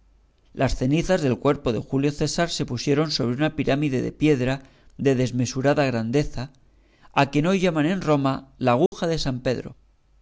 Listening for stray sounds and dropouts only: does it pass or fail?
fail